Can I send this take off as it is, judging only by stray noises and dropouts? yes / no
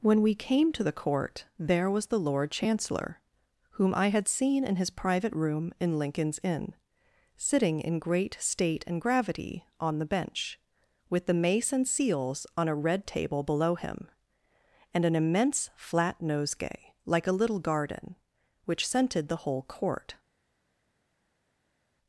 yes